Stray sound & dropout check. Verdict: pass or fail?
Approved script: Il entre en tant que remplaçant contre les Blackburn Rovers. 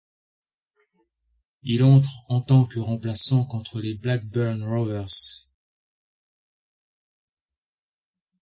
pass